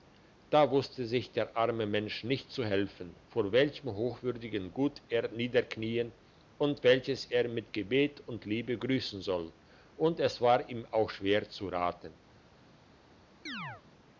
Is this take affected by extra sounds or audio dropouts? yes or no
yes